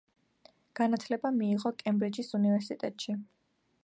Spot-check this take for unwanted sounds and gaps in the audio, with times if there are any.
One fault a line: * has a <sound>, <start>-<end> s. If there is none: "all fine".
all fine